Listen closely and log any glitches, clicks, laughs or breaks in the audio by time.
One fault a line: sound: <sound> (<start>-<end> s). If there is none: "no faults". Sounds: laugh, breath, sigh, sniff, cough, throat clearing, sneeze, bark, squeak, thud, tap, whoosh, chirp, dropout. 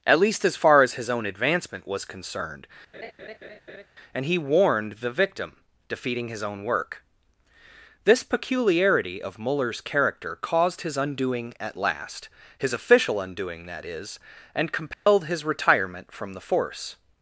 sound: laugh (2.9-3.9 s)
sound: dropout (14.9-15.1 s)